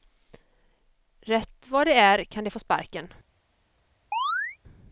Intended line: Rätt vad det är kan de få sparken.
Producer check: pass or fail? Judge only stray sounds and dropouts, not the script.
fail